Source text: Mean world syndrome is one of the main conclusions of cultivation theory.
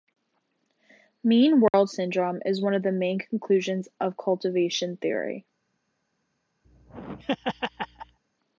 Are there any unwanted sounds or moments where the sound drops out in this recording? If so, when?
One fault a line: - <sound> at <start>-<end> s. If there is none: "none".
- dropout at 1.7-1.7 s
- laugh at 6.6-8.2 s